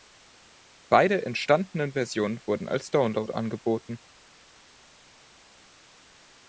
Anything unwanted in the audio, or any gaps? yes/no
no